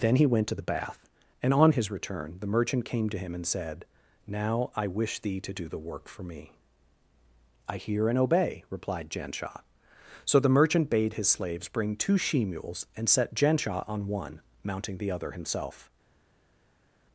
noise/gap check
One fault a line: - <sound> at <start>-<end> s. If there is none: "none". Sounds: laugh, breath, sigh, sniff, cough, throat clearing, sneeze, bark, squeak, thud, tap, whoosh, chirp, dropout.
none